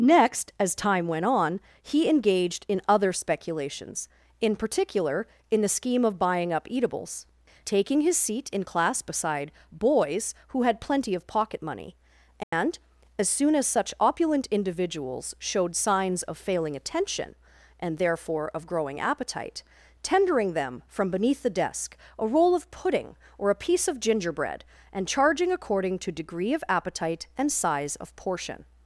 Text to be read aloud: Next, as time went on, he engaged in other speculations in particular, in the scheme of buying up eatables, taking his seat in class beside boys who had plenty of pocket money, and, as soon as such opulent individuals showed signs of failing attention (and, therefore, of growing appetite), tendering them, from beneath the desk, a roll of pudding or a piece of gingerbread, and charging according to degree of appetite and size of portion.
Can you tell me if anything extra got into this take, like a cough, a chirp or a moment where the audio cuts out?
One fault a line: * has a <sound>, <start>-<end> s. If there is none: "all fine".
* has a dropout, 12.4-12.5 s